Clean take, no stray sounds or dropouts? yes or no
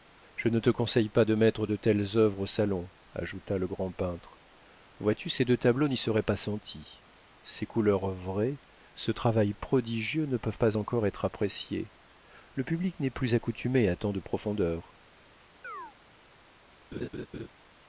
no